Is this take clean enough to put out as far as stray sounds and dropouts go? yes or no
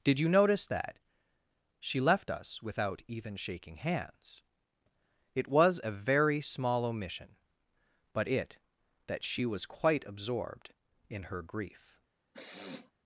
no